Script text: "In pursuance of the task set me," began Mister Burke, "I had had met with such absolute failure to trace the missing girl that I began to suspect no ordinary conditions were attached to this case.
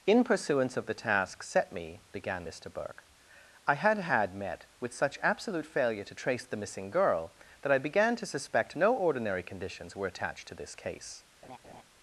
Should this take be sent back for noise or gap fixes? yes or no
yes